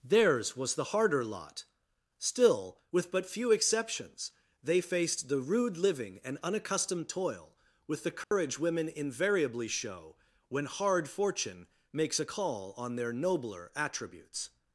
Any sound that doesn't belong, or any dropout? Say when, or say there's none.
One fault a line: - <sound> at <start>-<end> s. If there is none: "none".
- dropout at 8.2-8.3 s